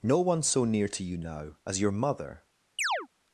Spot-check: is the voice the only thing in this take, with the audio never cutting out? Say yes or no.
no